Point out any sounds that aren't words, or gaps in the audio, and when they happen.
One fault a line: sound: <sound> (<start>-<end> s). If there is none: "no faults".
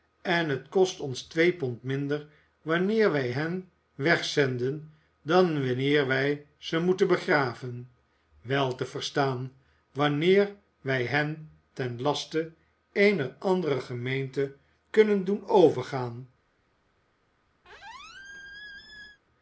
sound: squeak (17.6-19.2 s)